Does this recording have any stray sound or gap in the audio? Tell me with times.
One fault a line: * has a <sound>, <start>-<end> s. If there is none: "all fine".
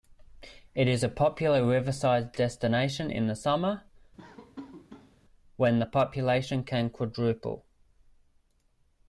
* has a laugh, 4.2-5.2 s